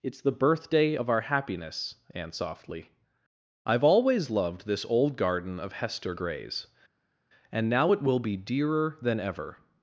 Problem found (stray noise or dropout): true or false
false